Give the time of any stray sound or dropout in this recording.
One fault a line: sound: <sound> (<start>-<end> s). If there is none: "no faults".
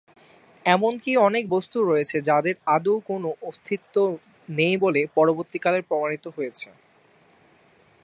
no faults